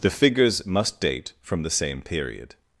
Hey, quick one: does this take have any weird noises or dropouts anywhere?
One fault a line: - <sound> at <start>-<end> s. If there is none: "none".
none